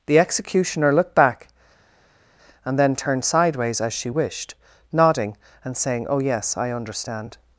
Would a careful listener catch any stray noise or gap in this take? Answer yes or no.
no